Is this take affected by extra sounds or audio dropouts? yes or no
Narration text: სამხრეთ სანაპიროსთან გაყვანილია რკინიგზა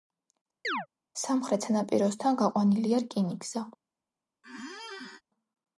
yes